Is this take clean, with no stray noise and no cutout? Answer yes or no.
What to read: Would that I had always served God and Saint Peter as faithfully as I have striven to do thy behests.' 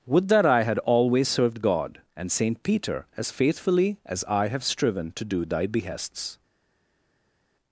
yes